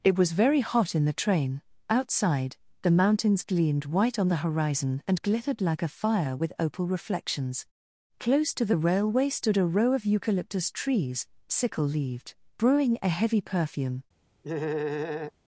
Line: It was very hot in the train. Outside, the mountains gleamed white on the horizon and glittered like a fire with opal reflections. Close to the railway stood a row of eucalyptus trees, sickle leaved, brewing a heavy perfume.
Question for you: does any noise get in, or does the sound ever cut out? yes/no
yes